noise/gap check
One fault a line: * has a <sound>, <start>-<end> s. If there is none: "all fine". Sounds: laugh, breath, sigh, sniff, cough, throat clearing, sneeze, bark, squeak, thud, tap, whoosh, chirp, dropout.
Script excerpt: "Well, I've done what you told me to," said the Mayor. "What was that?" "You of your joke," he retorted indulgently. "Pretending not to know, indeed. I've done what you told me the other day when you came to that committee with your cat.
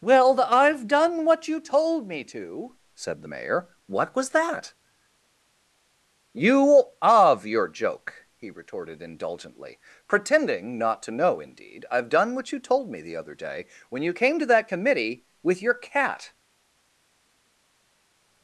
all fine